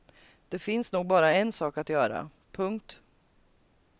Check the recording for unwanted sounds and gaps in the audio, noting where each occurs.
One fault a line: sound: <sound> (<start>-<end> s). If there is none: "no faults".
no faults